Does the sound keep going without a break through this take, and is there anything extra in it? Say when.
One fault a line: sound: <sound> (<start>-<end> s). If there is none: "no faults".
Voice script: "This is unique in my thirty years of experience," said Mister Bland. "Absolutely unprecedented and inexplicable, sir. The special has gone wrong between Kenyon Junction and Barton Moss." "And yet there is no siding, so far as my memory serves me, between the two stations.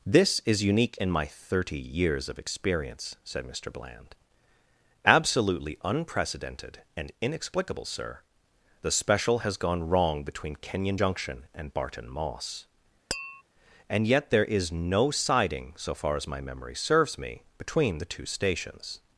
sound: tap (13.1-13.4 s)